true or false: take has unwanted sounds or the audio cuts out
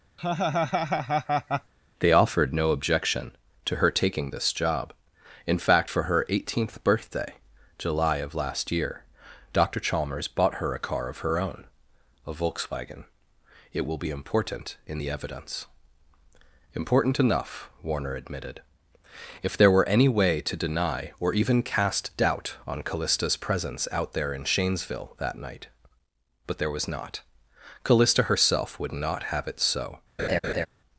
true